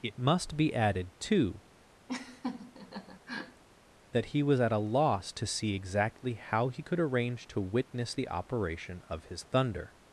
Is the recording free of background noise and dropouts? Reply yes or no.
no